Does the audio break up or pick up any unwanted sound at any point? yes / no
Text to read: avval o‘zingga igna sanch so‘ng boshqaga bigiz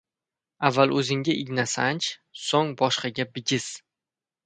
no